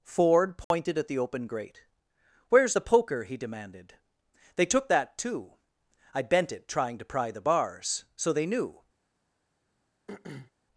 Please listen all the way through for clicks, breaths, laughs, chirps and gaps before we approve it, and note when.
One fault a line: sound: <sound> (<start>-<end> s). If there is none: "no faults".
sound: dropout (0.6-0.7 s)
sound: throat clearing (10.1-10.5 s)